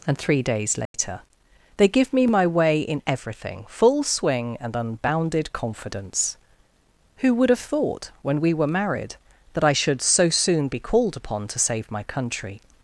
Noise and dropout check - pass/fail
fail